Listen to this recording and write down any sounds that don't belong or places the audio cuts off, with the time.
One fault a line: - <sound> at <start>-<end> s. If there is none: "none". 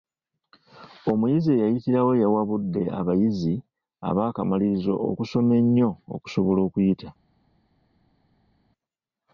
none